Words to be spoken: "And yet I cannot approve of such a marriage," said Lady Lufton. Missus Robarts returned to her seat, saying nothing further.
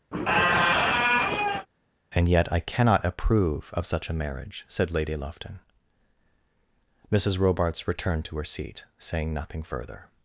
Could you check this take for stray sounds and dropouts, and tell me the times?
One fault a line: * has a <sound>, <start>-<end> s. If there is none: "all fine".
* has a squeak, 0.1-1.7 s